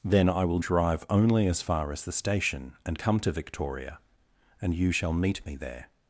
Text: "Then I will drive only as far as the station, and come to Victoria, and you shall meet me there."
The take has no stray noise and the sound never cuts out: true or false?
true